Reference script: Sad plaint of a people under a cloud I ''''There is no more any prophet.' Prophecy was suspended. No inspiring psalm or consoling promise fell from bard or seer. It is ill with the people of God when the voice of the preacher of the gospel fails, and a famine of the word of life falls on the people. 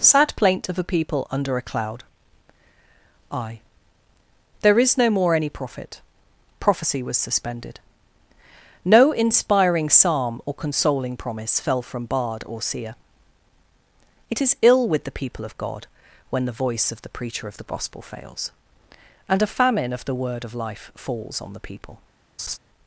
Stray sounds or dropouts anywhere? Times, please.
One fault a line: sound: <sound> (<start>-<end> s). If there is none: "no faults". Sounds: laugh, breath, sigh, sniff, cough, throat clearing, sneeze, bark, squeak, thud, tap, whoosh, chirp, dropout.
sound: laugh (22.4-22.6 s)